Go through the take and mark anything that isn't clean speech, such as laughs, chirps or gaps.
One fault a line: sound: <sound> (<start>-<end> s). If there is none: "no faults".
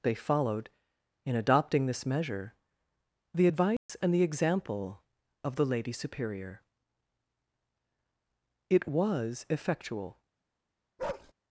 sound: dropout (3.8-3.9 s)
sound: bark (11.0-11.3 s)